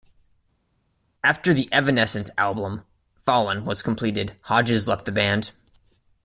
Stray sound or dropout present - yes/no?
no